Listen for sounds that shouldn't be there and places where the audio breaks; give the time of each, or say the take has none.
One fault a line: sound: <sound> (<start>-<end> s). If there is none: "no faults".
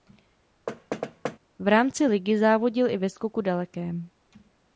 sound: thud (0.7-1.4 s)